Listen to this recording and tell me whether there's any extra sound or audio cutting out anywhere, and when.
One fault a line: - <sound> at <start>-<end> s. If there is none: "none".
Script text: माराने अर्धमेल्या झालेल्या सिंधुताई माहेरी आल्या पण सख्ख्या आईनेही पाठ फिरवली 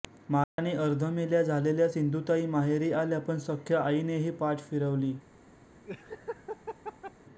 - dropout at 0.4-0.6 s
- laugh at 5.8-7.1 s